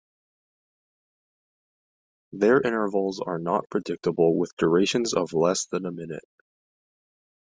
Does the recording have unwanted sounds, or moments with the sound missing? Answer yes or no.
no